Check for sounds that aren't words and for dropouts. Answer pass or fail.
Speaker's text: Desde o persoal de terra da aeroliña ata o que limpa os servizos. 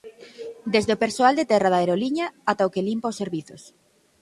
pass